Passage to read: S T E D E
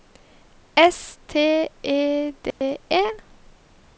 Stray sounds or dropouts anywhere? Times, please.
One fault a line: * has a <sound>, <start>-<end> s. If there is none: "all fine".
* has a dropout, 2.5-2.6 s